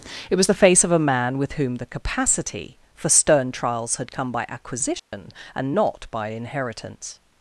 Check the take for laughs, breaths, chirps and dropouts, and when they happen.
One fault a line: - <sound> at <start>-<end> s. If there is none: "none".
- dropout at 5.0-5.1 s